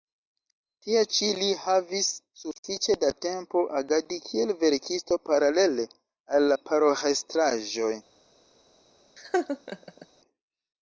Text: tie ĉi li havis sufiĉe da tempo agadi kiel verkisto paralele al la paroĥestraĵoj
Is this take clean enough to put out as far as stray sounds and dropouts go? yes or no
no